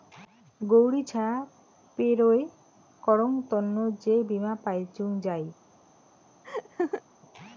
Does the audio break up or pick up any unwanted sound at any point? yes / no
yes